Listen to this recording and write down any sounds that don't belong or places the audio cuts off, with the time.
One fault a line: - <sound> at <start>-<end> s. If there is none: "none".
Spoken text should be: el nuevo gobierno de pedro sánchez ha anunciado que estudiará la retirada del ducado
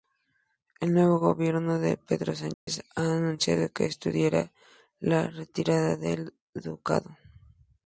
- dropout at 2.5-2.7 s